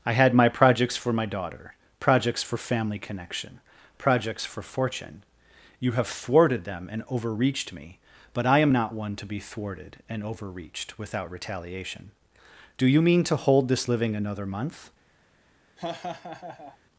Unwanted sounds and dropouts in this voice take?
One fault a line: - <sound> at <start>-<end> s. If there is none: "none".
- laugh at 15.8-16.8 s